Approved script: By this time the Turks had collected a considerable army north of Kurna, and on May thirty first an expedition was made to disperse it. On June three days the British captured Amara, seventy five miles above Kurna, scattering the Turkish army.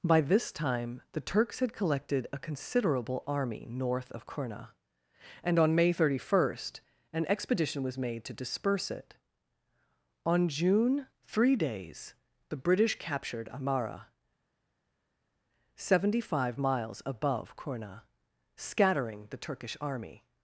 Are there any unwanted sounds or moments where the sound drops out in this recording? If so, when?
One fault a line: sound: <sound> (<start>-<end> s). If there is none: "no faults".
no faults